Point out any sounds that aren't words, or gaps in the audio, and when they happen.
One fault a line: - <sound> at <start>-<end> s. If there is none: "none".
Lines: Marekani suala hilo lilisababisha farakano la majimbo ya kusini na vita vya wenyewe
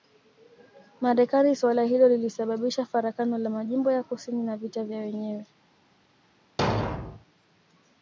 - thud at 6.6-7.2 s